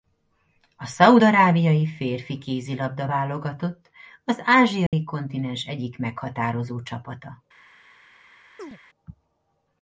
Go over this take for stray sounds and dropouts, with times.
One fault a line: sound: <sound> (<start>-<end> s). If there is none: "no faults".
sound: dropout (4.9-4.9 s)
sound: chirp (8.6-8.8 s)